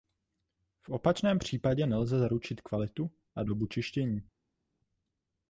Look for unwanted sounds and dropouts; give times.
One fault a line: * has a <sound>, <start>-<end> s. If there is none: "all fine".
all fine